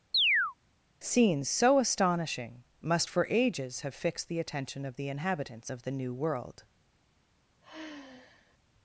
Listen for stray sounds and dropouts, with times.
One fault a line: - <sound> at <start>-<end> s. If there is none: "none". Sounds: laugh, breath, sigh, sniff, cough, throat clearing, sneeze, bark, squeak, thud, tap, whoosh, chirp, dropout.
- chirp at 0.1-0.5 s
- sigh at 7.6-8.6 s